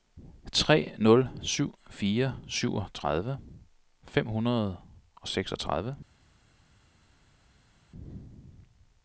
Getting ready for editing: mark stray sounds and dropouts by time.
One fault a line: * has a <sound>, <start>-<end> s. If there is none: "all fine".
all fine